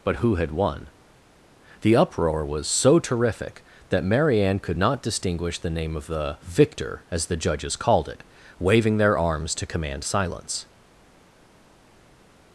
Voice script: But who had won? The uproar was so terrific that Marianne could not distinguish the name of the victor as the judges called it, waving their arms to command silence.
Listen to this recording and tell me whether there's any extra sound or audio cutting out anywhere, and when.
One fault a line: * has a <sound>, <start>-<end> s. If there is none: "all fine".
all fine